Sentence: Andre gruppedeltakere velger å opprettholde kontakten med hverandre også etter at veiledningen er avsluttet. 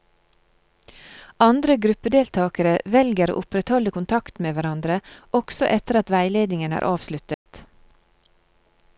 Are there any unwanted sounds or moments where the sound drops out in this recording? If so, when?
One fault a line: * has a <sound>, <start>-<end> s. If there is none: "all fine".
* has a dropout, 7.3-7.5 s